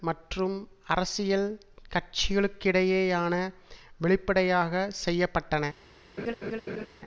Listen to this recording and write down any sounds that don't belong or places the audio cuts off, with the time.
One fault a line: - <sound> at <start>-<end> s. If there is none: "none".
- laugh at 6.2-6.9 s